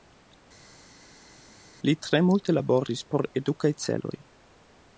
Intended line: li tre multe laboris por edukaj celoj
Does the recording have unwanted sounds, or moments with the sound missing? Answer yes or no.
no